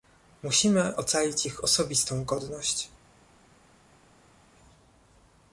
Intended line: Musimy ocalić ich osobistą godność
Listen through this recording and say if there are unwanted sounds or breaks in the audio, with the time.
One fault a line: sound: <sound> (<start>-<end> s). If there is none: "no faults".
no faults